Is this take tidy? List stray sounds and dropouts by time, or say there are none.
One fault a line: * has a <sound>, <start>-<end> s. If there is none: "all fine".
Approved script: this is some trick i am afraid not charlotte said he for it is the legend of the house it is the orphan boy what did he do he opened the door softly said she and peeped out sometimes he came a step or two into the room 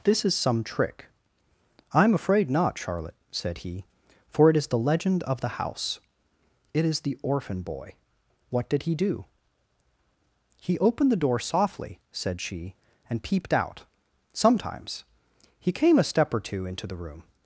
all fine